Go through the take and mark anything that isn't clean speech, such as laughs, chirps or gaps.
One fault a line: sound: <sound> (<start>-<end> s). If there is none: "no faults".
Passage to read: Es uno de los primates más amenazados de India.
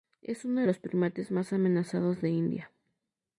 no faults